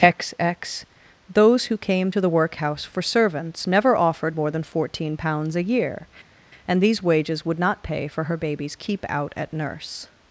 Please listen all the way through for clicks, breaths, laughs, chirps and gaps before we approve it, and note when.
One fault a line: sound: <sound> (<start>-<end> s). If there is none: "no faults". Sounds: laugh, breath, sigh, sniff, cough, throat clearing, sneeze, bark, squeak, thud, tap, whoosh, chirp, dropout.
no faults